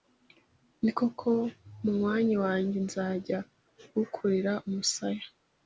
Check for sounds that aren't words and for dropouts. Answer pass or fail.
pass